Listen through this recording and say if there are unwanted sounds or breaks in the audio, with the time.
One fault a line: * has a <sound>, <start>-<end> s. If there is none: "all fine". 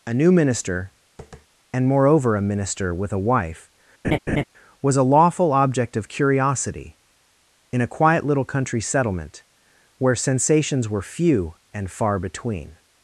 * has a tap, 1.2-1.5 s
* has a laugh, 4.0-4.4 s